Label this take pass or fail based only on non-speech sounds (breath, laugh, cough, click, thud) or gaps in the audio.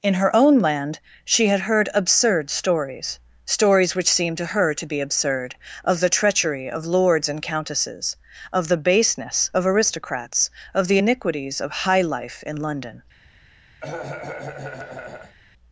fail